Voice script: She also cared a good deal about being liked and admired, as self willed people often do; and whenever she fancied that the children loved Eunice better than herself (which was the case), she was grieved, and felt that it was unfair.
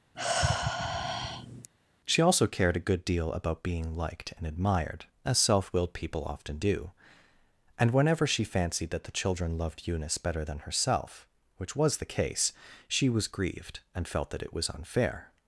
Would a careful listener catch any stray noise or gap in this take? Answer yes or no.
yes